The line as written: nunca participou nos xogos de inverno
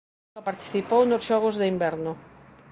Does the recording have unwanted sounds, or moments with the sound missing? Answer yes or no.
no